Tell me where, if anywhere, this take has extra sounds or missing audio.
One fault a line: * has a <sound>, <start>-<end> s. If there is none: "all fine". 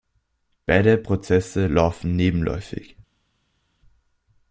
all fine